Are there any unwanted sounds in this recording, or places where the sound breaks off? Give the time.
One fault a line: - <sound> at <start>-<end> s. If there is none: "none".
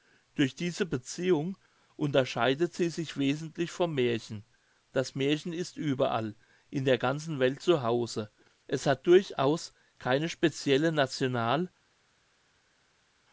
none